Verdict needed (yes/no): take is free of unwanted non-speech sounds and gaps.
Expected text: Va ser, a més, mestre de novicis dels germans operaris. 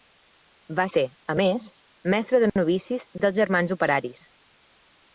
yes